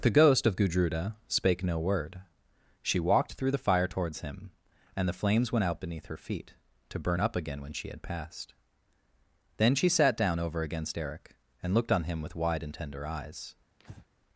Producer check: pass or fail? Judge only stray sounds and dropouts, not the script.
fail